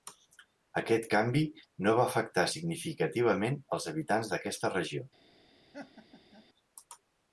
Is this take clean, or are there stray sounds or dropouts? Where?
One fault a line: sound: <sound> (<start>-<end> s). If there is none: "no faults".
sound: laugh (5.7-6.5 s)